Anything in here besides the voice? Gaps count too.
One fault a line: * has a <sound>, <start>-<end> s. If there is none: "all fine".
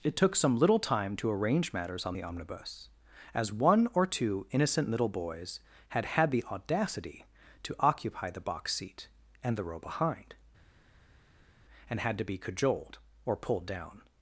all fine